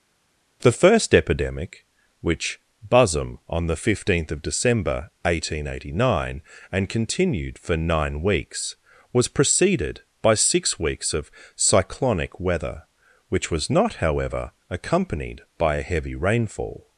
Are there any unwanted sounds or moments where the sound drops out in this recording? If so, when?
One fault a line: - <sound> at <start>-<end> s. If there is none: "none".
none